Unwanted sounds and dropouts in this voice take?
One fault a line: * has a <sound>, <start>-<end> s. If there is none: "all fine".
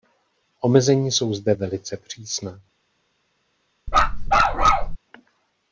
* has a bark, 3.9-5.0 s